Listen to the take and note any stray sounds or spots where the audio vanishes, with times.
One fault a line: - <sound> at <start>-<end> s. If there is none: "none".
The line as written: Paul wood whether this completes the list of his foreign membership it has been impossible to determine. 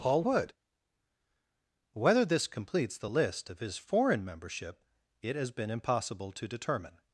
none